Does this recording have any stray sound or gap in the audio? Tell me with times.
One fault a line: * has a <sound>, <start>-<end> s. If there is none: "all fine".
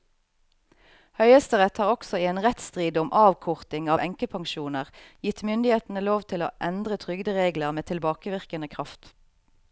all fine